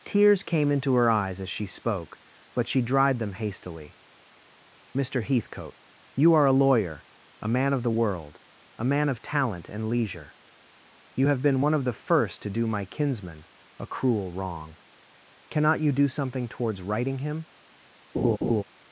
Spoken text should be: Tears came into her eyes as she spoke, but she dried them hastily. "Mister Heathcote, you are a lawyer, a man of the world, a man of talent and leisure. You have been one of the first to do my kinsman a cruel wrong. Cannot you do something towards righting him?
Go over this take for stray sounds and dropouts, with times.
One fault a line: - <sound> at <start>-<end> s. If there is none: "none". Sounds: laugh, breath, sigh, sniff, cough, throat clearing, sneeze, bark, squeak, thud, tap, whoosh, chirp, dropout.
- laugh at 18.1-18.6 s